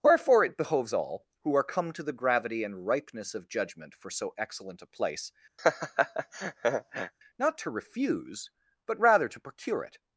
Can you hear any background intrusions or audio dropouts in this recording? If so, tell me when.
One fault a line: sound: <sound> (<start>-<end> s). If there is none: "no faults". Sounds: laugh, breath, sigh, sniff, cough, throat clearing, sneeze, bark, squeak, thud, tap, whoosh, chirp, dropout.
sound: laugh (5.6-7.1 s)